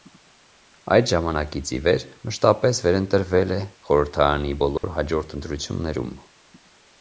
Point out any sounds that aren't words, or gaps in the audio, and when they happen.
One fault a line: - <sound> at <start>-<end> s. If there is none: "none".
- dropout at 4.8-4.8 s